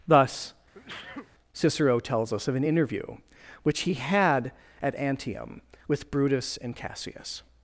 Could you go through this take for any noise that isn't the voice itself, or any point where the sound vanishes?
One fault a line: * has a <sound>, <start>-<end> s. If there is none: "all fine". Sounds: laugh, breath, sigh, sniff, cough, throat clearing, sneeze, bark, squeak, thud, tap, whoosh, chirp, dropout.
* has a sneeze, 0.7-1.3 s